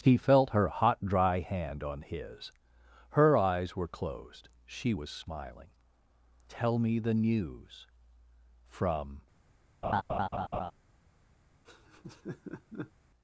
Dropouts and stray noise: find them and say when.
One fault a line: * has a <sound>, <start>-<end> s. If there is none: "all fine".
* has a laugh, 9.8-10.7 s
* has a laugh, 11.6-12.9 s